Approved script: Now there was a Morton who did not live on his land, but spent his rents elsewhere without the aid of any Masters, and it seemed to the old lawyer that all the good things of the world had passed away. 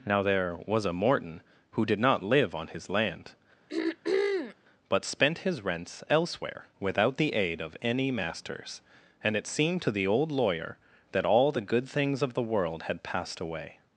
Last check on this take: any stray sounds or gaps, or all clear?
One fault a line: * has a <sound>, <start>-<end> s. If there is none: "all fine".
* has a throat clearing, 3.7-4.6 s